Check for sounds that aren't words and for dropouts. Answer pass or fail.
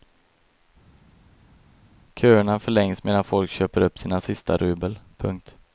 pass